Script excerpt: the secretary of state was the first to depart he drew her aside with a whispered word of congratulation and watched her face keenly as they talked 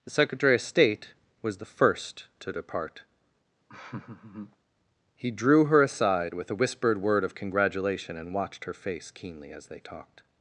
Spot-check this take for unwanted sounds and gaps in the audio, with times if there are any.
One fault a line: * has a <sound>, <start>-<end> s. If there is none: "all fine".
* has a laugh, 3.7-4.6 s